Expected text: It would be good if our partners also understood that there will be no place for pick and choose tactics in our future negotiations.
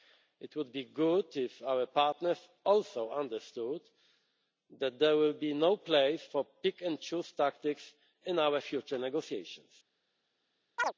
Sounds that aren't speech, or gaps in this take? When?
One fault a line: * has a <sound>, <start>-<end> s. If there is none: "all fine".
* has a chirp, 10.8-10.9 s